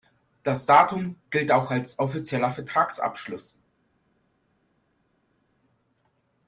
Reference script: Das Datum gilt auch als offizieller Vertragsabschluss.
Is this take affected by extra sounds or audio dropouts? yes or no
no